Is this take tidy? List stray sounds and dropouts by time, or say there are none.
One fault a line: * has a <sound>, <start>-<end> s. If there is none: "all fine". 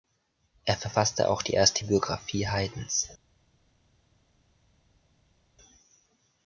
all fine